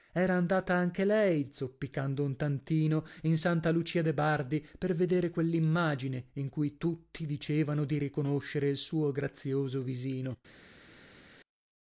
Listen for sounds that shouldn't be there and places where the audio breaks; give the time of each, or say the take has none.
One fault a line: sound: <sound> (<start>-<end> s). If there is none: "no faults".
no faults